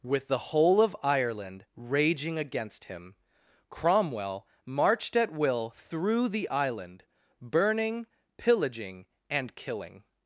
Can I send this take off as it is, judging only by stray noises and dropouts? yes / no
yes